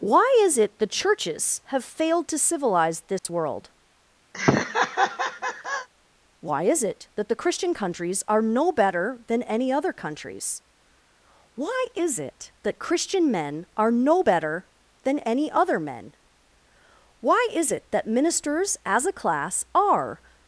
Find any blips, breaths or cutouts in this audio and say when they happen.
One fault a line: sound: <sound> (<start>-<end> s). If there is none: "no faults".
sound: dropout (3.2-3.2 s)
sound: laugh (4.3-5.9 s)